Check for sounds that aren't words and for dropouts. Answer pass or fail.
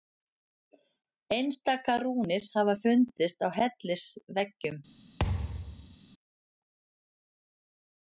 fail